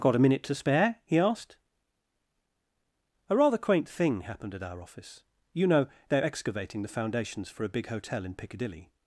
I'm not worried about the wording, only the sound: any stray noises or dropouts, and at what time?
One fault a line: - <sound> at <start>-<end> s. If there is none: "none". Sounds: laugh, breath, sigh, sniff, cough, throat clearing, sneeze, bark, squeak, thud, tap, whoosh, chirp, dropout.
none